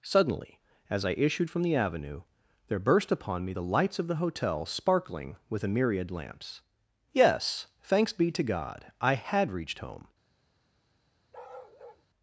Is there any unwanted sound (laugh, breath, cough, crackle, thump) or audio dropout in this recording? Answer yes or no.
yes